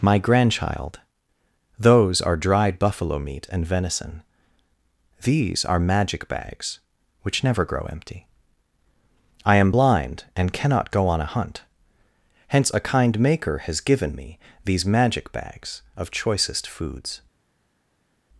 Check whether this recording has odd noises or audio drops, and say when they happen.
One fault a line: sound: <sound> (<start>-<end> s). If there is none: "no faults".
no faults